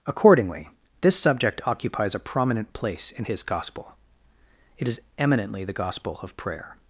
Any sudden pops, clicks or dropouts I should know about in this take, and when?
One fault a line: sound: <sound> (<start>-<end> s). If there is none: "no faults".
no faults